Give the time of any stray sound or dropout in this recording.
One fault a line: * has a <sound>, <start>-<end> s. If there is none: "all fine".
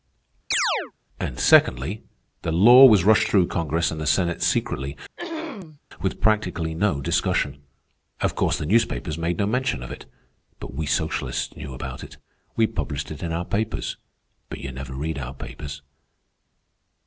* has a chirp, 0.5-0.9 s
* has a throat clearing, 5.2-5.8 s